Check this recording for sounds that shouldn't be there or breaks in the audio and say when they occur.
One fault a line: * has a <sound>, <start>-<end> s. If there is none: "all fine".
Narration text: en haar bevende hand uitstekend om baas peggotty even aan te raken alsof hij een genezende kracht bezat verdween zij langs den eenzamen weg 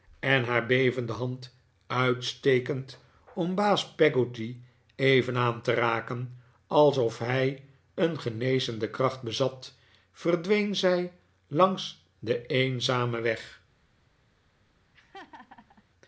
* has a laugh, 14.9-15.8 s